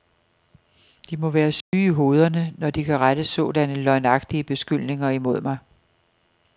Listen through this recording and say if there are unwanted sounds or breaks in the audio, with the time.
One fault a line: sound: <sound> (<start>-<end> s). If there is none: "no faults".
sound: dropout (1.6-1.7 s)